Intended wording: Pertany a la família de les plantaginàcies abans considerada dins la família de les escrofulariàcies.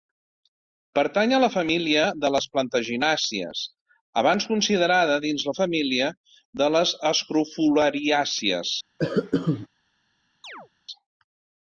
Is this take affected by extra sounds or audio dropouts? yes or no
yes